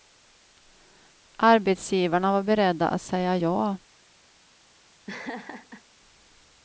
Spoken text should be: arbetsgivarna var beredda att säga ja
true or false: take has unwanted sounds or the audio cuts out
true